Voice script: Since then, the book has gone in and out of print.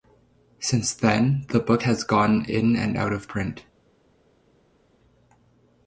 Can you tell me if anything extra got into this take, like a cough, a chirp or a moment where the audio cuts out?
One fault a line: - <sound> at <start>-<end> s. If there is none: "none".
none